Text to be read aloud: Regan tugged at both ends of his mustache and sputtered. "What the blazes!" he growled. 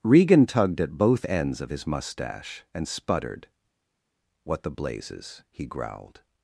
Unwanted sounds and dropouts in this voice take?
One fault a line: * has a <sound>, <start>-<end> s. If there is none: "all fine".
all fine